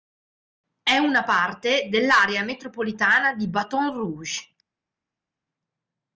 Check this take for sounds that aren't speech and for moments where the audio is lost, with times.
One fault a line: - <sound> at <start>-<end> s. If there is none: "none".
none